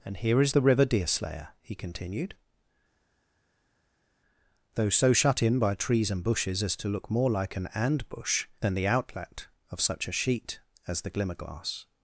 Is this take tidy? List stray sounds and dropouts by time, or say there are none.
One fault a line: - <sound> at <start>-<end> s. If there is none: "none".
none